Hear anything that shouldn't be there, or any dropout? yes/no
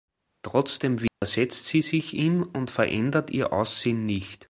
yes